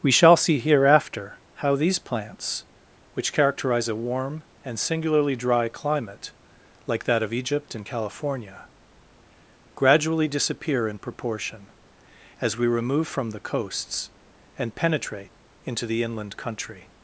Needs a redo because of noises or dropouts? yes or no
no